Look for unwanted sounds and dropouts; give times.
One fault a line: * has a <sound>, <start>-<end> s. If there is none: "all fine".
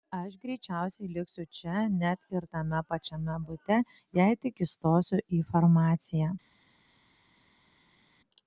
all fine